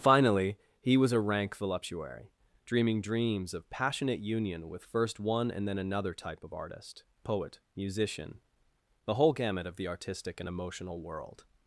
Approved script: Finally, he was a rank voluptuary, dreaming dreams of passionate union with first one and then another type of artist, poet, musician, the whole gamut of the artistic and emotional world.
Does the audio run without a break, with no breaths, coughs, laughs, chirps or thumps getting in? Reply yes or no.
yes